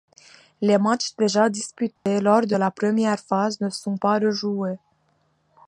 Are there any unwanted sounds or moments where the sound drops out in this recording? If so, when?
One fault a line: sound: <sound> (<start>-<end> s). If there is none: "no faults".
sound: dropout (2.0-2.1 s)